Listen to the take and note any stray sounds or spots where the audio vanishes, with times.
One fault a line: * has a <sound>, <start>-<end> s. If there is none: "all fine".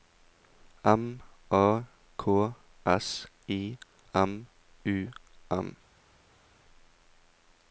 all fine